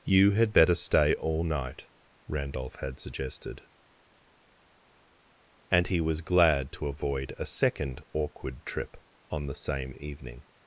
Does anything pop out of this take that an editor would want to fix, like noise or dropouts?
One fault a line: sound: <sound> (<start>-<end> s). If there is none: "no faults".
no faults